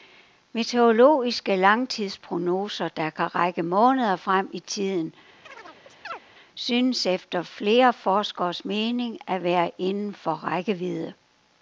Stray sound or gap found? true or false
true